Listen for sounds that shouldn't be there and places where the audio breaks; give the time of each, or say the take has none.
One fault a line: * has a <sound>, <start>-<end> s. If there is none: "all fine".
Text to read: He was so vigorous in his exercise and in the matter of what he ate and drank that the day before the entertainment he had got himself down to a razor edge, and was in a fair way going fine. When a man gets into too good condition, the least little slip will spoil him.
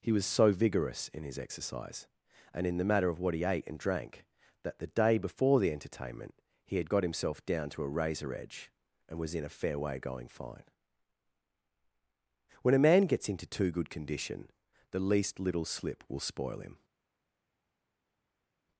all fine